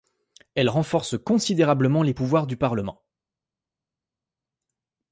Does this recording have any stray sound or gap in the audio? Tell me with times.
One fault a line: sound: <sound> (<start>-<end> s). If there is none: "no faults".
no faults